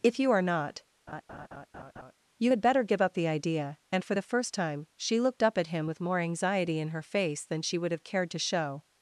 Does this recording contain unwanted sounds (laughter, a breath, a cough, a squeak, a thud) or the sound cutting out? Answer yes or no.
yes